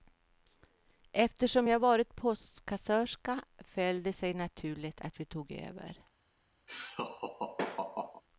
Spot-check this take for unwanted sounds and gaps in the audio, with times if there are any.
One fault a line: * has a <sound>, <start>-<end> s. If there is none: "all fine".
* has a laugh, 6.7-8.2 s